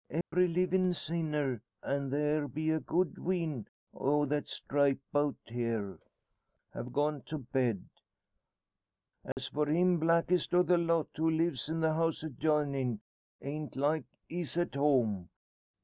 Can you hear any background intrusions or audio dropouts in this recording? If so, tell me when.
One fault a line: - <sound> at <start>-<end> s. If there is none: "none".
- dropout at 0.2-0.3 s
- dropout at 9.3-9.4 s